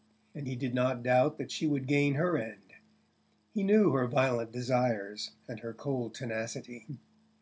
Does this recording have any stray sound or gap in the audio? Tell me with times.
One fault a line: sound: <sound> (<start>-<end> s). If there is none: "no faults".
no faults